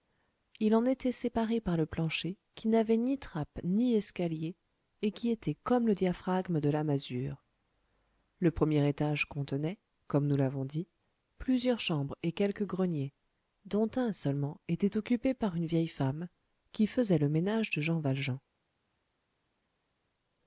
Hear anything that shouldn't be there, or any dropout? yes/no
no